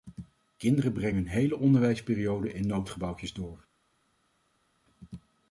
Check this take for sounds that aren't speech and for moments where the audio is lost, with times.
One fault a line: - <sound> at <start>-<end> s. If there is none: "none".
none